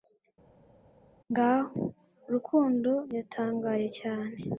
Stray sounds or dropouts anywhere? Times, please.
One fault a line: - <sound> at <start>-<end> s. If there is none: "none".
none